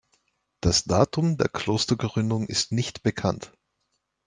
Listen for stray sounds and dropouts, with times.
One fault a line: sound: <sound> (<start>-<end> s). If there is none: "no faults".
no faults